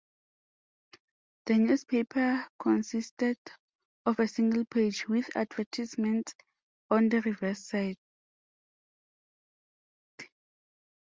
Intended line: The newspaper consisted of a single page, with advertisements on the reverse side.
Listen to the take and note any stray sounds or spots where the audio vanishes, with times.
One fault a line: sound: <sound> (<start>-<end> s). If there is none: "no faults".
no faults